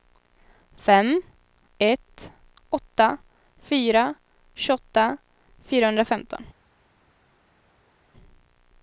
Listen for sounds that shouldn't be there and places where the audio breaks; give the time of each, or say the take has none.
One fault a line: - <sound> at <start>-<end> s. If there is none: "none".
none